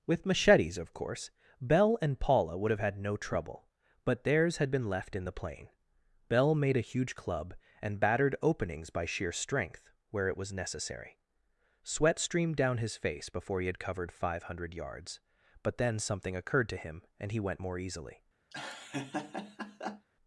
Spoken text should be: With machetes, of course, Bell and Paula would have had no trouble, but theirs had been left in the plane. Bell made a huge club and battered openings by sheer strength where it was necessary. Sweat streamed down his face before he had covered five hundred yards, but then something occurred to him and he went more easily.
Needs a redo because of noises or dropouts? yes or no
yes